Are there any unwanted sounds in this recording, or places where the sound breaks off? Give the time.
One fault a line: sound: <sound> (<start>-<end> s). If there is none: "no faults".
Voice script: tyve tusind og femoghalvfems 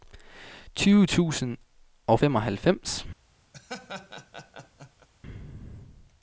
sound: laugh (3.5-5.1 s)